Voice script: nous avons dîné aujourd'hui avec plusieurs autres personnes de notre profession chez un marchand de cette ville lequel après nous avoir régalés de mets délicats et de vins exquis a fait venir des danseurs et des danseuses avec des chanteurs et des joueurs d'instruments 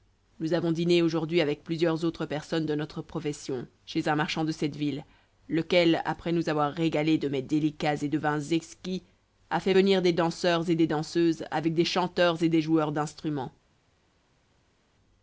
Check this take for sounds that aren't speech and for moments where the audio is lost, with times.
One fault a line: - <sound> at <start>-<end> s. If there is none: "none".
none